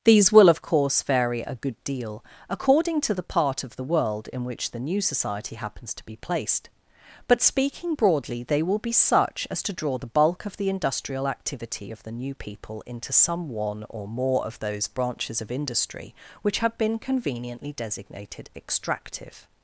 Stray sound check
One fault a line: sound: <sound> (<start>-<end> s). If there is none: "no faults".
no faults